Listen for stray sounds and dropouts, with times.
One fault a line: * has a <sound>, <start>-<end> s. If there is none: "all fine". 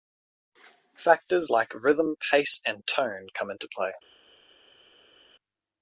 all fine